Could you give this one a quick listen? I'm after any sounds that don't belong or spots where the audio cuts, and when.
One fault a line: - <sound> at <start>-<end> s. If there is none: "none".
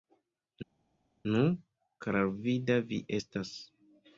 none